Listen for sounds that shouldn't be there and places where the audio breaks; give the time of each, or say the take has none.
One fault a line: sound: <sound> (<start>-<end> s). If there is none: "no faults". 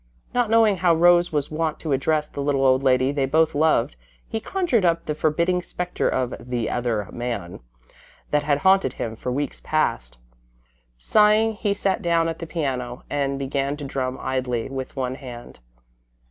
no faults